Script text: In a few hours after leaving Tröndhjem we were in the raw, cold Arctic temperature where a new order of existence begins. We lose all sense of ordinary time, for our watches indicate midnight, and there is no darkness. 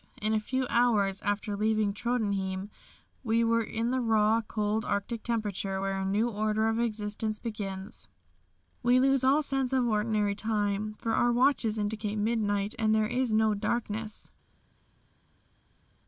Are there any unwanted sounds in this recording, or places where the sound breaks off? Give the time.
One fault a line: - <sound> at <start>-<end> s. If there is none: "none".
none